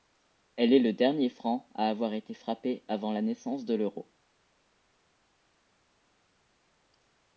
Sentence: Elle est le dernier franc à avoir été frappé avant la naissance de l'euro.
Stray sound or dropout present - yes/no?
no